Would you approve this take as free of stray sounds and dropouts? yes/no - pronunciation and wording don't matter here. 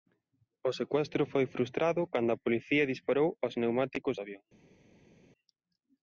yes